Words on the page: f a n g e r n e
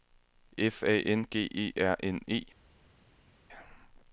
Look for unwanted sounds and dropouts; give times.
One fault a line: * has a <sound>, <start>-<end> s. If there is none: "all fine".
all fine